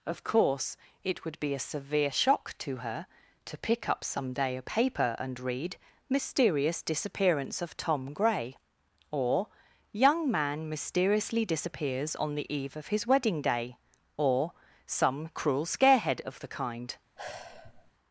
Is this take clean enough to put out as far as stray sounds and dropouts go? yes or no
no